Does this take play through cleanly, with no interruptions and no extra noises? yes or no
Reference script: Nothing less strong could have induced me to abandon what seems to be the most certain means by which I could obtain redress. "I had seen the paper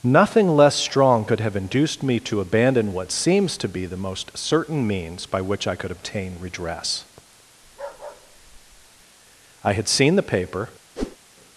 no